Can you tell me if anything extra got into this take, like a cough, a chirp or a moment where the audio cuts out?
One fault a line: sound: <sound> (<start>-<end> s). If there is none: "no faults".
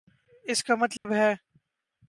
sound: dropout (1.0-1.1 s)